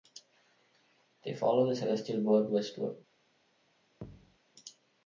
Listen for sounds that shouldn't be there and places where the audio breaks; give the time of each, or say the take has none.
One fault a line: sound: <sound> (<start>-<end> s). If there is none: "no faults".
sound: thud (4.0-4.4 s)